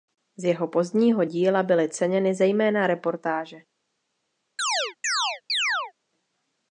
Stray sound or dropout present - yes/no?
yes